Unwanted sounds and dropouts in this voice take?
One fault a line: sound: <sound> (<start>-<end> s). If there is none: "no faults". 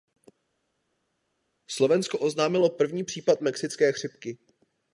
no faults